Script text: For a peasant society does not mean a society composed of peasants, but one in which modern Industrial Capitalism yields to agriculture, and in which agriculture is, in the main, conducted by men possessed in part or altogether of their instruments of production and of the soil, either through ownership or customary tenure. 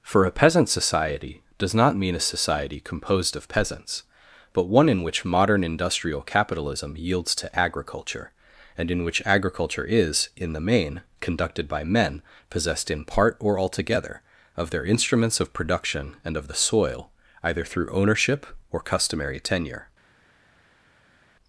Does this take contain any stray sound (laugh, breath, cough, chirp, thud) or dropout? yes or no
no